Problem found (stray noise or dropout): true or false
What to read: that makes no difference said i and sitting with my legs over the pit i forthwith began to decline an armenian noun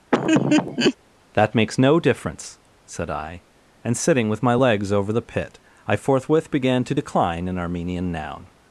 true